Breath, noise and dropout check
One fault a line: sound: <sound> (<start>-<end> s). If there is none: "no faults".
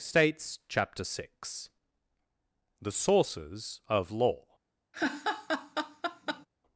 sound: laugh (4.9-6.5 s)